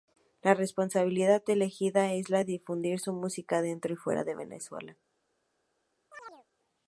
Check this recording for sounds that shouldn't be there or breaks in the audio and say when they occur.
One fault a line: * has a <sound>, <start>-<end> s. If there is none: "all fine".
* has a chirp, 6.1-6.5 s